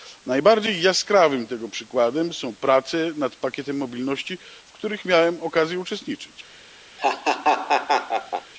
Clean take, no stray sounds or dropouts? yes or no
no